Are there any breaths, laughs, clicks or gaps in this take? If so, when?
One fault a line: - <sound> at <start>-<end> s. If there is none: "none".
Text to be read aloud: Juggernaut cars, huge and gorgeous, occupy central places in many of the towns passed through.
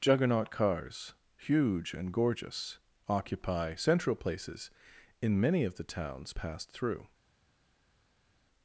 none